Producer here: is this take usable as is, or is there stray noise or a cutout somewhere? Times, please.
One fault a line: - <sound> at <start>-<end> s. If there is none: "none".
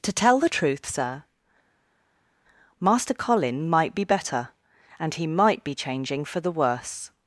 none